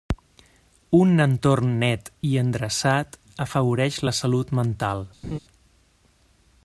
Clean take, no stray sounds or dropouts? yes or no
no